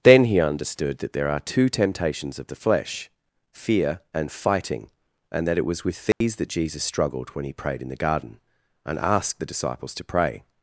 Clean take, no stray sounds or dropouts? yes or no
no